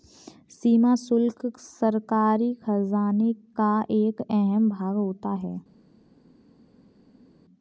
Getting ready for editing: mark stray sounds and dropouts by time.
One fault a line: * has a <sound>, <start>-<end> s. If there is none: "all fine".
all fine